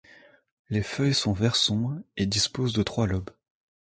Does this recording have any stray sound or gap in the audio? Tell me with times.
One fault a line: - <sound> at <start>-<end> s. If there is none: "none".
none